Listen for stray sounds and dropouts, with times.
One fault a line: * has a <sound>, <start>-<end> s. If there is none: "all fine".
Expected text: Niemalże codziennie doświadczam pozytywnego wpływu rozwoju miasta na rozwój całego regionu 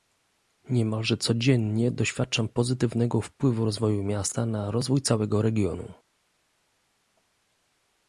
all fine